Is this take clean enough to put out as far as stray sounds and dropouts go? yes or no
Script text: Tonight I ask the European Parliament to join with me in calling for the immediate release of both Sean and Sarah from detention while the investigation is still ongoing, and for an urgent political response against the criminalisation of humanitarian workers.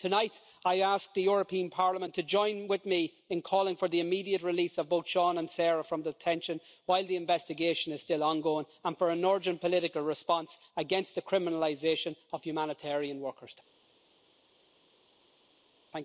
yes